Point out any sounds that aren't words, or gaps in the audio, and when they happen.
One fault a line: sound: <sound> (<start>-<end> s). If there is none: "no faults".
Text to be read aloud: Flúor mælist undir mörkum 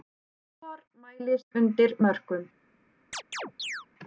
sound: chirp (3.1-3.9 s)